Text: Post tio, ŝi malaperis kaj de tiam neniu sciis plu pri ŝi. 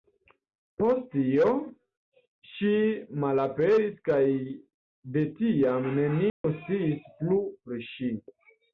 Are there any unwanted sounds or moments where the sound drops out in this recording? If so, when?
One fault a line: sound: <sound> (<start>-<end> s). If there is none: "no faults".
sound: dropout (6.3-6.4 s)